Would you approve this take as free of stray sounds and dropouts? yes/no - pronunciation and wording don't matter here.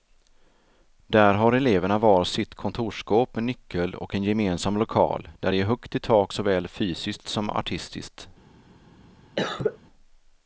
no